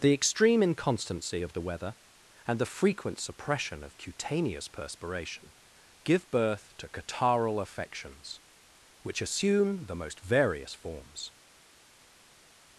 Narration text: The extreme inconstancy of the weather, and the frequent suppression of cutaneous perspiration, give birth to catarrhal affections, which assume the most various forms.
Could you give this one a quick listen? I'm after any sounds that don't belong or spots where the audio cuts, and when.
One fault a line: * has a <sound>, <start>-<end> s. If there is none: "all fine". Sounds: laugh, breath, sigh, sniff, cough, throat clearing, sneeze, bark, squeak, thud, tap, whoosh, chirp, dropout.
all fine